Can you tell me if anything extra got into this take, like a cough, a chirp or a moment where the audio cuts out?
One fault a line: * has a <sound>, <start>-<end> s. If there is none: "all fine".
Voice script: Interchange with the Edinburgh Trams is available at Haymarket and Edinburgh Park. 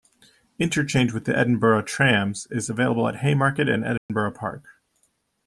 * has a dropout, 4.0-4.1 s